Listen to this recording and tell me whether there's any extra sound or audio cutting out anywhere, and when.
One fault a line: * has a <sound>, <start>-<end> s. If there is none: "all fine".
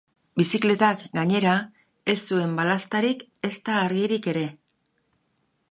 all fine